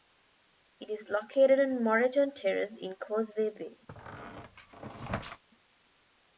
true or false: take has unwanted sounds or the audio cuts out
true